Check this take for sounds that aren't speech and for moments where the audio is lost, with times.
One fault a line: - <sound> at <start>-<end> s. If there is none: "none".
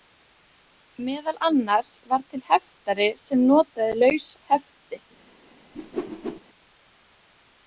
- whoosh at 5.7-6.4 s